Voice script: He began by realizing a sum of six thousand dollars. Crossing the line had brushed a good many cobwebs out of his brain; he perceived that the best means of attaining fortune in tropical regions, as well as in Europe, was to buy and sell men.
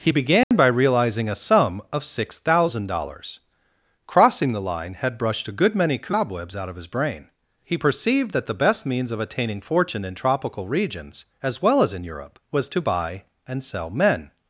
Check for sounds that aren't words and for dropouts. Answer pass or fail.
fail